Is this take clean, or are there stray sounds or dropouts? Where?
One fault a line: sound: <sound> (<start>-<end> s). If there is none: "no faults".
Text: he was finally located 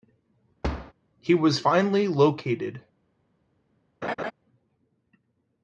sound: thud (0.6-0.9 s)
sound: laugh (4.0-4.3 s)